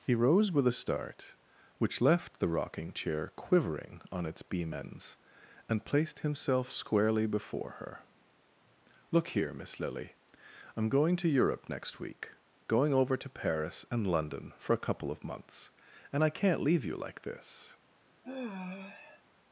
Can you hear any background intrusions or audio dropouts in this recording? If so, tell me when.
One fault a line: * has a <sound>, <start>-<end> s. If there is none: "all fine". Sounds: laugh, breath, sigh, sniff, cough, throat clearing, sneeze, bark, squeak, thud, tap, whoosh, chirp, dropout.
* has a sigh, 18.2-19.2 s